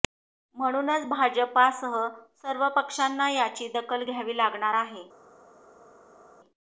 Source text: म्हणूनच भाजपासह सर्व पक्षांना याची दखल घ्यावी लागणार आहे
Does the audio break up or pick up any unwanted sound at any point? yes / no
no